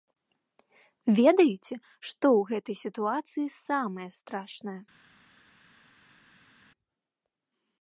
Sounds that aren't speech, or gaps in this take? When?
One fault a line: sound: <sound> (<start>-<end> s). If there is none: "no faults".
no faults